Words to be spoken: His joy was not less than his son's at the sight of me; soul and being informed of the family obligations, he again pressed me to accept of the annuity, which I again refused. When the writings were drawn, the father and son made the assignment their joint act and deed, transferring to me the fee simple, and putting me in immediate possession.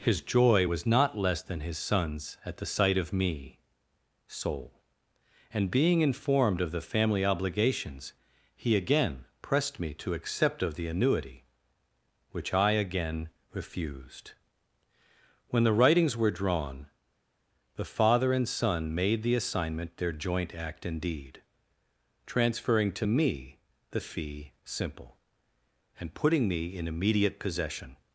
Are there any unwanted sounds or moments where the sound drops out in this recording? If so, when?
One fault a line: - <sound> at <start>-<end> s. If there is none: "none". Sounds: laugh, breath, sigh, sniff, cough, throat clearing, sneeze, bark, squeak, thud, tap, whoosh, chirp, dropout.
none